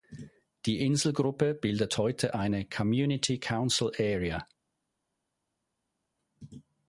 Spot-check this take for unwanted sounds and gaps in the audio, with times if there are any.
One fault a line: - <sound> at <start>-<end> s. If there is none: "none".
none